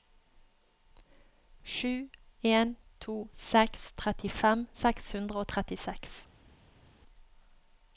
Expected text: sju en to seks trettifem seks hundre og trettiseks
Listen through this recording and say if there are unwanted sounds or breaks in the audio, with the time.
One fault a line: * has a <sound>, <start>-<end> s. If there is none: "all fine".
all fine